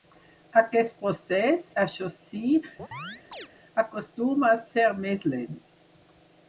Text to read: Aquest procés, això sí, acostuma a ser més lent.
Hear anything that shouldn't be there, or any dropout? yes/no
yes